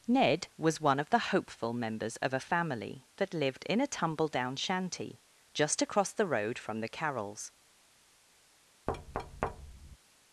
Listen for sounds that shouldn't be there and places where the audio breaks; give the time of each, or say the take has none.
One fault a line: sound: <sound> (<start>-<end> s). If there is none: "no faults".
sound: thud (8.9-10.0 s)